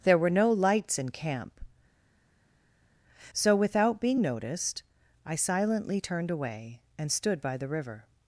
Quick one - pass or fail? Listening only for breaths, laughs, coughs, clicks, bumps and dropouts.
pass